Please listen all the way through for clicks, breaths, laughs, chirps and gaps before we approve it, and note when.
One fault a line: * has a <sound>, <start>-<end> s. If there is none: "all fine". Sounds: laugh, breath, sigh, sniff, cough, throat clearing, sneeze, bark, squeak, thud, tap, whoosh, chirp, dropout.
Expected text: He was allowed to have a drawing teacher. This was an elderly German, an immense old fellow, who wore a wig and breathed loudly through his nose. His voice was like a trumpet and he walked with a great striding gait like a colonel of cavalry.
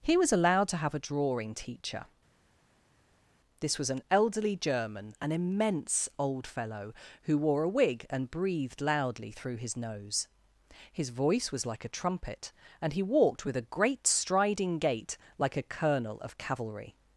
all fine